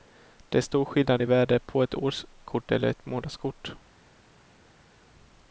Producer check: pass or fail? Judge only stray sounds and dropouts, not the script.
pass